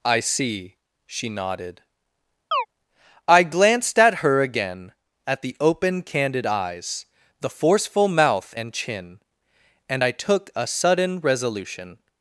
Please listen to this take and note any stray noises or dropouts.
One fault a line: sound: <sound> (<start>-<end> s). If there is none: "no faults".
sound: chirp (2.5-2.7 s)